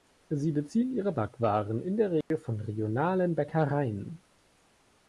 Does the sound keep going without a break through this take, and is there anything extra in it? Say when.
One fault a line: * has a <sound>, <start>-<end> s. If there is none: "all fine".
* has a dropout, 2.2-2.3 s